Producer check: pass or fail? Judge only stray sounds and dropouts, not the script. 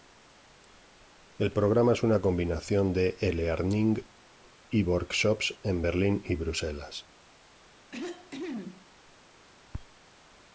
fail